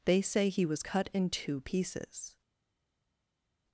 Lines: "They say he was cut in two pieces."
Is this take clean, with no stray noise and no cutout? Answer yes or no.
yes